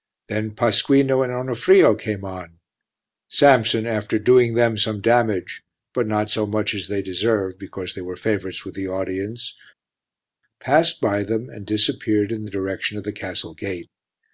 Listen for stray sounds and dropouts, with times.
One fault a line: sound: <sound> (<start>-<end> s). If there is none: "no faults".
no faults